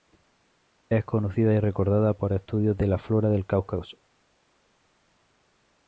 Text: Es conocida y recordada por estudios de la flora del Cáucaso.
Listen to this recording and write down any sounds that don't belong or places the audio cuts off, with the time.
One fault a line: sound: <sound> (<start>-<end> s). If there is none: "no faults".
no faults